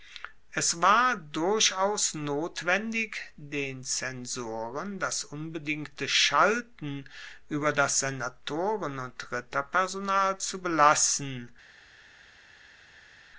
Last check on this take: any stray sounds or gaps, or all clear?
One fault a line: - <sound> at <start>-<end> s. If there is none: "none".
none